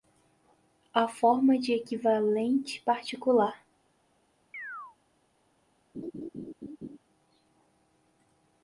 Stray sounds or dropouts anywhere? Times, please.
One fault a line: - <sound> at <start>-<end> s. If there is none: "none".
- chirp at 4.5-5.0 s
- laugh at 5.9-7.0 s